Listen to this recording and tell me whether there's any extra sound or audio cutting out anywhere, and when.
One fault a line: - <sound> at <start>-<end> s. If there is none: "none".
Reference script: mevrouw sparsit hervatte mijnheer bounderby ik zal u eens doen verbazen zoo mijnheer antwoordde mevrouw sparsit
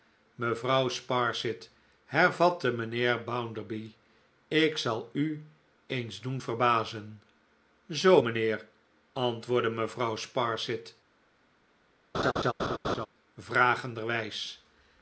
- laugh at 12.1-13.1 s